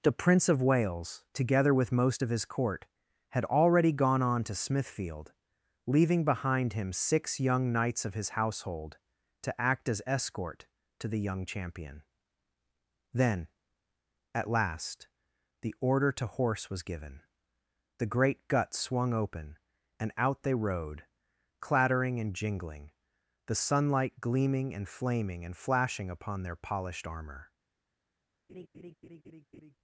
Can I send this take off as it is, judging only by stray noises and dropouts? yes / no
no